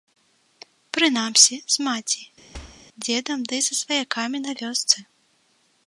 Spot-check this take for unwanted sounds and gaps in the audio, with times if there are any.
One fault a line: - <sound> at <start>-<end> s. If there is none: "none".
- thud at 2.5-2.8 s